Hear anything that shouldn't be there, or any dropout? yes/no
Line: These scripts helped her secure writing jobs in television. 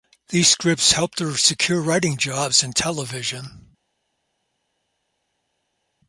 no